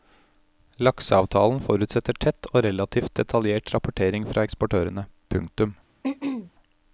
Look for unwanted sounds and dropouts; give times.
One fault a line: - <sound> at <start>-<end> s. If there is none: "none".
- throat clearing at 6.0-6.5 s